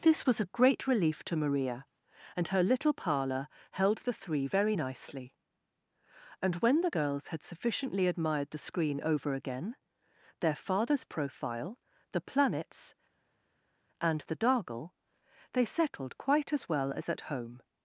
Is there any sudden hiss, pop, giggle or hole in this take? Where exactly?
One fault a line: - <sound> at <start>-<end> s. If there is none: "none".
none